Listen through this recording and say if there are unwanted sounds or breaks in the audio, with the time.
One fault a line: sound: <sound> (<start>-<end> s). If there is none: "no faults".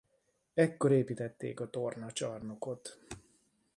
no faults